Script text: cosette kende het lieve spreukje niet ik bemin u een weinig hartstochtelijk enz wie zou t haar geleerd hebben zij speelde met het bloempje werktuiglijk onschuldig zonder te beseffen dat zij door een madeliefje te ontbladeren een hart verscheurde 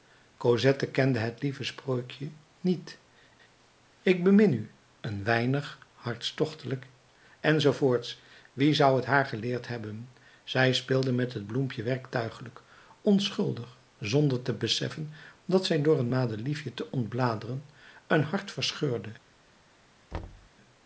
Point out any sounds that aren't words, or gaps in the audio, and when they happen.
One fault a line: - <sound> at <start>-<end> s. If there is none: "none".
- thud at 20.1-20.5 s